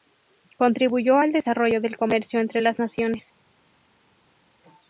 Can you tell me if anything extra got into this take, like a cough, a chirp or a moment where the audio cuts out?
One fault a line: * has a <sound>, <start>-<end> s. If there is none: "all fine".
all fine